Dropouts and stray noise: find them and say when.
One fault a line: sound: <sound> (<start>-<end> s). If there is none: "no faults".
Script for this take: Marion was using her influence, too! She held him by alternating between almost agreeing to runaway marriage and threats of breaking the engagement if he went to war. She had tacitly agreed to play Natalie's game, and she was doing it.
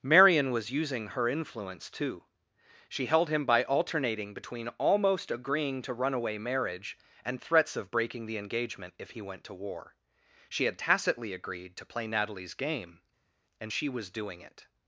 no faults